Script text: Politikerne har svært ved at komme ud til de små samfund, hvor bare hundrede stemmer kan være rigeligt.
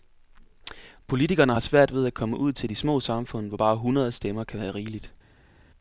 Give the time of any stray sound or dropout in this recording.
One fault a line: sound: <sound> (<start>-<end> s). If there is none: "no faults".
no faults